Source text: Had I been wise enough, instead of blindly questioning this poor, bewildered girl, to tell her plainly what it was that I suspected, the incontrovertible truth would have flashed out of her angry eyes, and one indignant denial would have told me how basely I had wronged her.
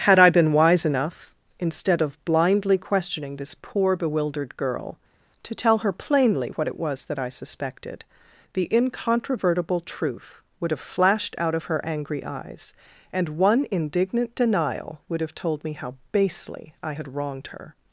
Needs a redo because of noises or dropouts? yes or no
no